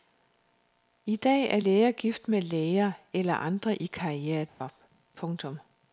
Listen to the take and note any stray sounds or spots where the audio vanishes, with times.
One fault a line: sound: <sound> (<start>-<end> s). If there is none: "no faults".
sound: dropout (4.5-4.6 s)